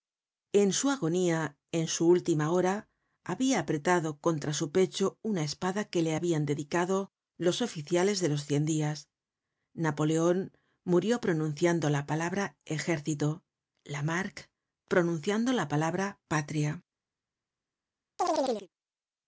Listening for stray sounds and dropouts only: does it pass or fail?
fail